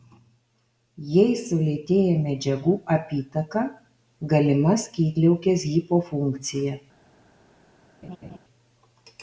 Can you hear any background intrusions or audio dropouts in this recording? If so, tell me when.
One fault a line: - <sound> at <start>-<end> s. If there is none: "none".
- laugh at 8.0-8.4 s